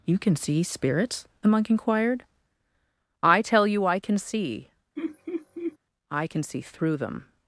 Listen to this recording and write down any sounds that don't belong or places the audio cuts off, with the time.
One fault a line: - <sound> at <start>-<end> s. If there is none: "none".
- laugh at 5.0-5.8 s